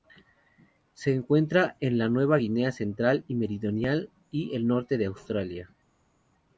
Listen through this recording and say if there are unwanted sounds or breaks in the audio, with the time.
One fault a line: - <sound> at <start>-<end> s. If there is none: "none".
none